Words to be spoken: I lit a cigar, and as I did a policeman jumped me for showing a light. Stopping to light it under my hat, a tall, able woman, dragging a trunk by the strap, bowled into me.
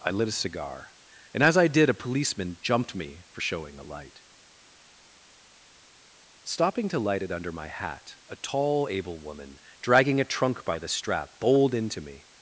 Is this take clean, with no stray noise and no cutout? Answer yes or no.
yes